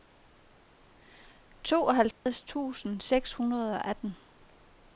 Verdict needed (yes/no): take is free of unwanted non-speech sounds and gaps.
no